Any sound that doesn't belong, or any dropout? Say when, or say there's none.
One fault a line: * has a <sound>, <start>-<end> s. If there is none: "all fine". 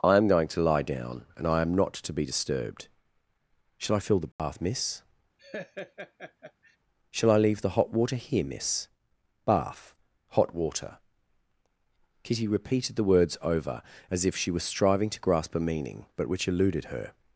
* has a dropout, 4.3-4.4 s
* has a laugh, 5.4-6.8 s